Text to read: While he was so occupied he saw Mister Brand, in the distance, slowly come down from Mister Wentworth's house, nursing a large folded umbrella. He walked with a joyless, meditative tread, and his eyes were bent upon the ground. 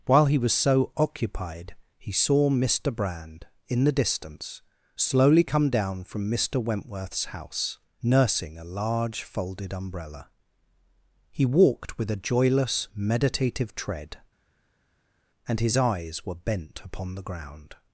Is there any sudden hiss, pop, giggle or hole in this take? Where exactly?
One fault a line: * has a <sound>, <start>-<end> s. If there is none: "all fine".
all fine